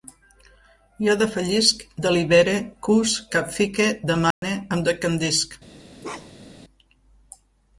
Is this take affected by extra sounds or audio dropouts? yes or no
yes